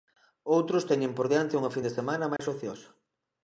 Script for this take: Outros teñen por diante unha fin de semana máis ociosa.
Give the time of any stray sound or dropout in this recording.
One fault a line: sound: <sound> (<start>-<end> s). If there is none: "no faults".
sound: dropout (2.4-2.4 s)